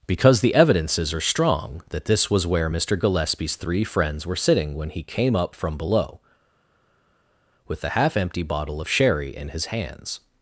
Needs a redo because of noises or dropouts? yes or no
no